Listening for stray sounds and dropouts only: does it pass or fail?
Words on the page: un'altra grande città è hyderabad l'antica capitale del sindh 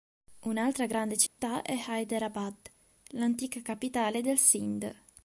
fail